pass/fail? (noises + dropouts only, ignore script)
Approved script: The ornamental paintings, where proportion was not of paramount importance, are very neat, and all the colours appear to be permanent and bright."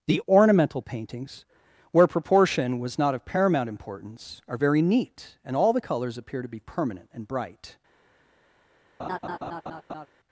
fail